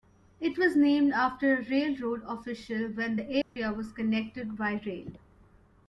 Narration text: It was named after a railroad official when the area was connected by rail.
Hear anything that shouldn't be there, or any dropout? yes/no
yes